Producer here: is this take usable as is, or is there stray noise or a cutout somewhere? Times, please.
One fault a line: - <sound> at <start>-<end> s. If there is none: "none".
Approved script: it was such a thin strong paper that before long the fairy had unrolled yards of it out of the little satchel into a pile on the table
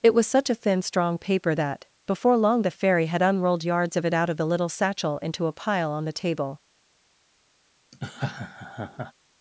- laugh at 7.9-9.1 s